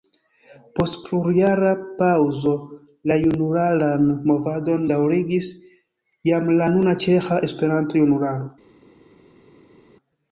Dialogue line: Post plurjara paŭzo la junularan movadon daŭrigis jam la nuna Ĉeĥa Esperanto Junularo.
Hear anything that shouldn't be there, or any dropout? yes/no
no